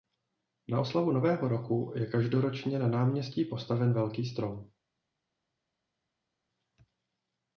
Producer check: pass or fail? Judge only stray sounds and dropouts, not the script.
pass